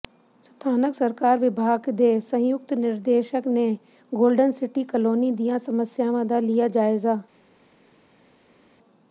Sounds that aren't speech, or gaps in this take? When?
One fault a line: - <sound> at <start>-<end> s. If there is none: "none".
none